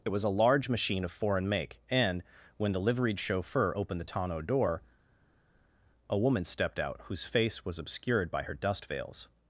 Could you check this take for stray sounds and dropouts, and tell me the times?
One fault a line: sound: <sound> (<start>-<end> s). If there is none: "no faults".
no faults